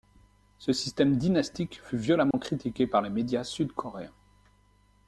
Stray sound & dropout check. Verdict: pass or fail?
fail